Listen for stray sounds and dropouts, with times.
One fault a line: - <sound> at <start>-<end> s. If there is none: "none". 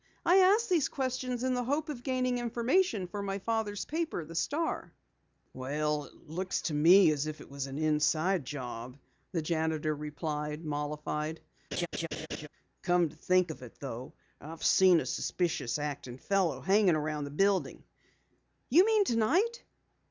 - laugh at 11.7-12.5 s